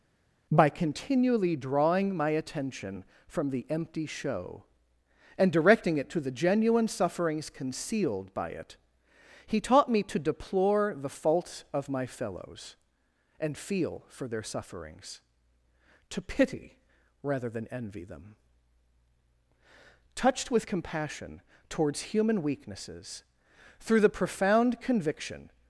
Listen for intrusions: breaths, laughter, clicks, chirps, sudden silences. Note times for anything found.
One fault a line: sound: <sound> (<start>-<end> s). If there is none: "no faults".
no faults